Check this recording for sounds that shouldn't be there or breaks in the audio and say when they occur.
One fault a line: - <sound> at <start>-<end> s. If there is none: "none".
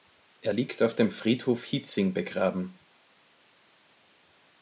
none